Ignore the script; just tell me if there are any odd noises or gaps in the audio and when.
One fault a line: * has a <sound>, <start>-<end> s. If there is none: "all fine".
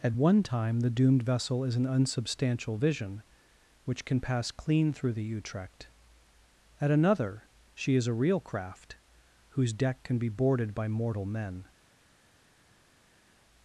all fine